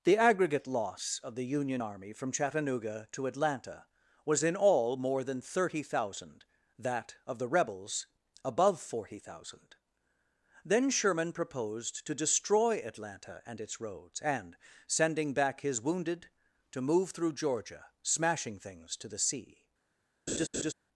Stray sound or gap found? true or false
true